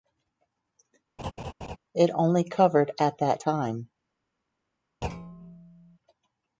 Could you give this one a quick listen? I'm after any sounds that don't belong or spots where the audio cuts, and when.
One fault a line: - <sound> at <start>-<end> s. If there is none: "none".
- laugh at 1.2-1.8 s
- thud at 5.0-6.0 s